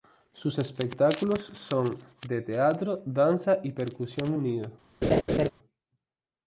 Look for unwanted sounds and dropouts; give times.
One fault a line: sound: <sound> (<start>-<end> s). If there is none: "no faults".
sound: laugh (5.0-5.5 s)